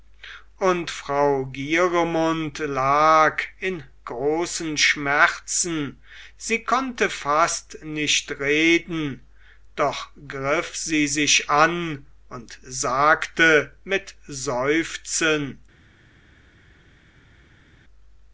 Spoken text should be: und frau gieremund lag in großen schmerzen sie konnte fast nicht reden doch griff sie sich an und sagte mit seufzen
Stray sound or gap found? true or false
false